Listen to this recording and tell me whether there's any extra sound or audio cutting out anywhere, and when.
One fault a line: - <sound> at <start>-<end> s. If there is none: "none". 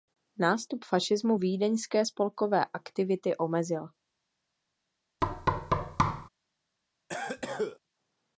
- thud at 5.2-6.3 s
- cough at 7.1-7.8 s